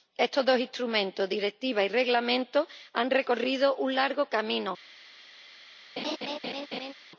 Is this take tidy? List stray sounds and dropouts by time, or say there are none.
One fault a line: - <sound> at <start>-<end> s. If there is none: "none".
- laugh at 6.0-6.9 s